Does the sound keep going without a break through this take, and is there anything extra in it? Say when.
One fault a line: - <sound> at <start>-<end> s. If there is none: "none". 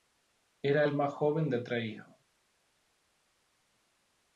none